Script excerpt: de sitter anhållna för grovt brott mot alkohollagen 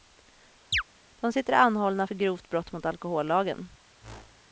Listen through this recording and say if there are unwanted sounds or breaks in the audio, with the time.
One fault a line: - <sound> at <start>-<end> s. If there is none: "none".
- chirp at 0.7-0.8 s
- whoosh at 4.0-4.5 s